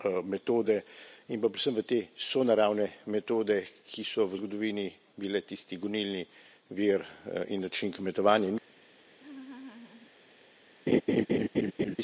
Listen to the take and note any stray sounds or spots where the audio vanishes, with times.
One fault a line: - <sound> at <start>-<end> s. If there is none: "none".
- laugh at 9.2-10.1 s
- laugh at 10.9-12.0 s